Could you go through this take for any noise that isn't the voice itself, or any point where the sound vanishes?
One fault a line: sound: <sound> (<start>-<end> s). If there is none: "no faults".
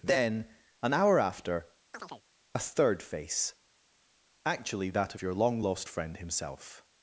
sound: chirp (1.9-2.2 s)